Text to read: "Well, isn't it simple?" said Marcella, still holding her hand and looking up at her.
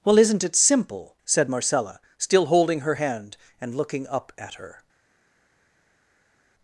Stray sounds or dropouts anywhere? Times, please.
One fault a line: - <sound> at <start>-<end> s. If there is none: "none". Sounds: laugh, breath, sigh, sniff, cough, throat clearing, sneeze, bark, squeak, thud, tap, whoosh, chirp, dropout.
none